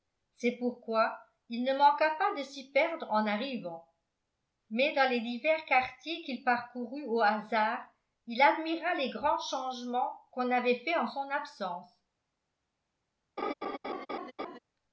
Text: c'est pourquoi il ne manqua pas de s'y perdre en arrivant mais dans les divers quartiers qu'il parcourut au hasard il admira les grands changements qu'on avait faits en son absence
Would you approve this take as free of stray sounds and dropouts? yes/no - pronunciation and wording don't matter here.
no